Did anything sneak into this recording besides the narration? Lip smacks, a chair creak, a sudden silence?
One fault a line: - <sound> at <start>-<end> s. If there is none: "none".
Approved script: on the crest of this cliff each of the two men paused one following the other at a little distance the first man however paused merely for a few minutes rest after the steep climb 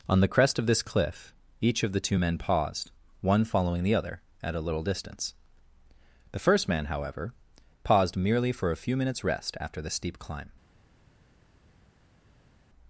none